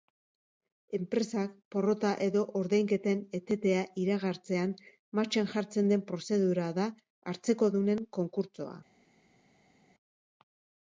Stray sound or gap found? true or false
false